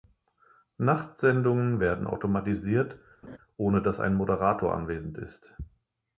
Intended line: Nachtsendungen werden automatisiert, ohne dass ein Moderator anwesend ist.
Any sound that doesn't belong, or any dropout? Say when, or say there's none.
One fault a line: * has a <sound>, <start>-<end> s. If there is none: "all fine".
* has a laugh, 3.2-3.4 s